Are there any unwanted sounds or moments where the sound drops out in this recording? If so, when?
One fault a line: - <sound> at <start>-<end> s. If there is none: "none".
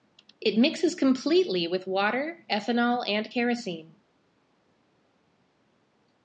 none